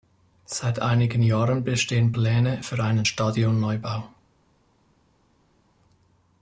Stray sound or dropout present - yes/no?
no